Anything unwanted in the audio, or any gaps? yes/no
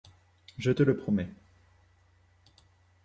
no